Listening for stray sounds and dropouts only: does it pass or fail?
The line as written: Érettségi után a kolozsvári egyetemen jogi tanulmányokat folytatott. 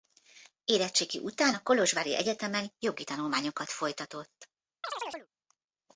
fail